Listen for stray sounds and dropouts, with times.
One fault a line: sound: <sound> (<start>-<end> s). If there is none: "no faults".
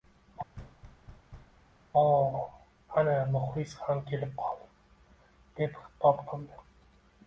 sound: thud (0.5-1.6 s)